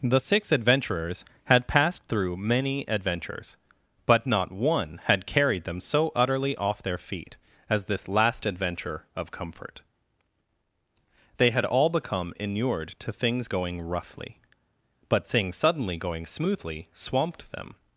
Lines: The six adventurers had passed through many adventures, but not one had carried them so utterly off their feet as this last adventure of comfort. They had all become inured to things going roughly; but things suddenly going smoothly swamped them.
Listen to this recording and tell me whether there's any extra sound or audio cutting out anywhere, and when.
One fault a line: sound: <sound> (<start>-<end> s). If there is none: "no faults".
no faults